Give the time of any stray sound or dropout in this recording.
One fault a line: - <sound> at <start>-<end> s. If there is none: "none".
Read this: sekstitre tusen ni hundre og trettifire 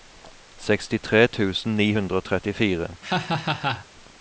- laugh at 3.0-3.9 s